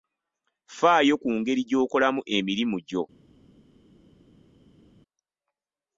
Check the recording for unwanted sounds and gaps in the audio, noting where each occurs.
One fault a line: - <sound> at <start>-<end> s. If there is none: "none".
none